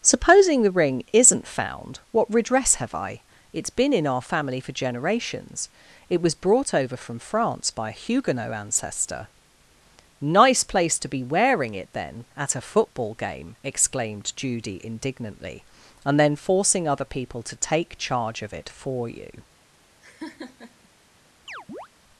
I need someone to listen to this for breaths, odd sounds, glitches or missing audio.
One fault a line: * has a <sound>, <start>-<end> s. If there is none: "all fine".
* has a laugh, 20.0-20.9 s
* has a chirp, 21.5-21.9 s